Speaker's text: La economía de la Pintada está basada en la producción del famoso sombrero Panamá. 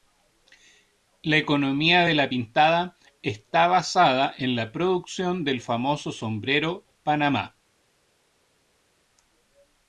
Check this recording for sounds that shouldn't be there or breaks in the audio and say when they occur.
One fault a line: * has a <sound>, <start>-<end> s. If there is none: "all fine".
all fine